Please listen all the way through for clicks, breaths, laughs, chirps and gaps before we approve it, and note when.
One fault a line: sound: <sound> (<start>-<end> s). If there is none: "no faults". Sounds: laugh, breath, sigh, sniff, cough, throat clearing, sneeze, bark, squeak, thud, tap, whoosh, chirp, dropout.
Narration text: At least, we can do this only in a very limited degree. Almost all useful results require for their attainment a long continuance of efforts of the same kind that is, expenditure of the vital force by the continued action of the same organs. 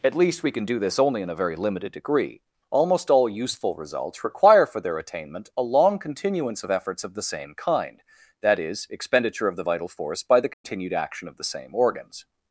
sound: dropout (10.5-10.6 s)